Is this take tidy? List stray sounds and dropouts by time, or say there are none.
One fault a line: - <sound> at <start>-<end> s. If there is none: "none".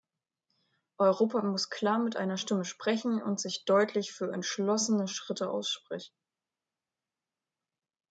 none